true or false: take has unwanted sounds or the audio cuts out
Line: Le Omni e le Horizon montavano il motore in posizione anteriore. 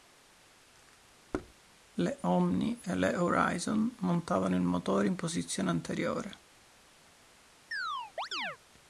true